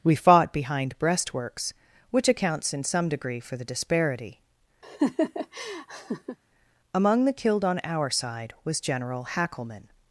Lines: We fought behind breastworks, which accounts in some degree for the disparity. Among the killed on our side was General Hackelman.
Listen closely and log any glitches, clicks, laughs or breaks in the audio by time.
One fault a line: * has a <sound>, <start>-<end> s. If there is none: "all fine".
* has a laugh, 4.8-6.4 s